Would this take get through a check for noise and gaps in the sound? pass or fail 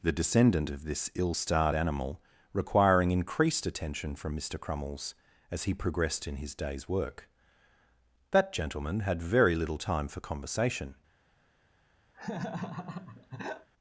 fail